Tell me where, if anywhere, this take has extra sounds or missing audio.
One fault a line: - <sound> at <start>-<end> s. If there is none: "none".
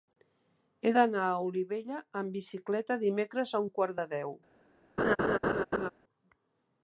- laugh at 5.0-5.9 s